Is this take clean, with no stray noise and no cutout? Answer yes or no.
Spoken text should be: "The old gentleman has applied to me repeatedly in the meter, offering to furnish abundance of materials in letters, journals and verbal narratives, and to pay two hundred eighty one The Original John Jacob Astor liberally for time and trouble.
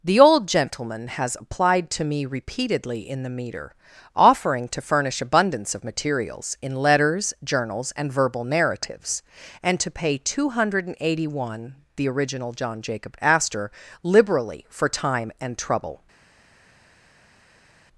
yes